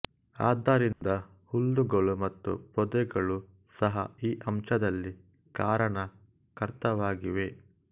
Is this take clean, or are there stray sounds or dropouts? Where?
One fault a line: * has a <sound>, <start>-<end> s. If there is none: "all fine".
* has a dropout, 0.9-1.0 s